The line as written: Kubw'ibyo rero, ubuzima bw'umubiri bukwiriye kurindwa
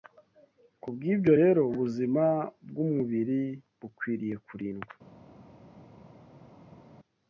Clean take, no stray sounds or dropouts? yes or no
yes